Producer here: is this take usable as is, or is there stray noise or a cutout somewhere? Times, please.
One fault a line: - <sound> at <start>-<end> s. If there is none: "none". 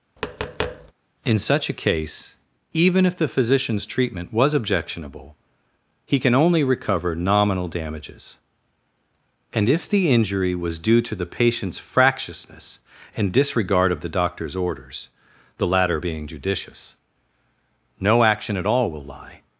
- tap at 0.2-0.9 s